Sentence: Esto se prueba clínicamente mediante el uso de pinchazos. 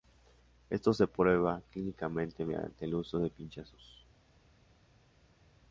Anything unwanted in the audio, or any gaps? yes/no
no